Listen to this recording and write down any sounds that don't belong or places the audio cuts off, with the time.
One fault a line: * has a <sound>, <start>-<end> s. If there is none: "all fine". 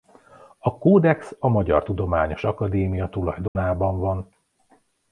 * has a dropout, 3.5-3.6 s